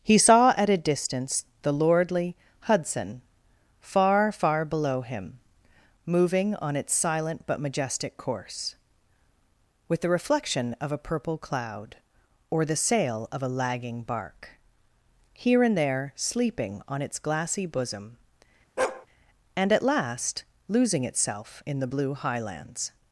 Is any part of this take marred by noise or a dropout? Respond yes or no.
yes